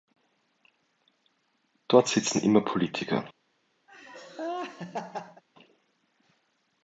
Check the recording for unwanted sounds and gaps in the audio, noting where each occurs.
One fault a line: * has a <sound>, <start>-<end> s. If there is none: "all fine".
* has a laugh, 3.9-5.4 s